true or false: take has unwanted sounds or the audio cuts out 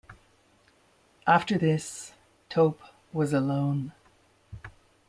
false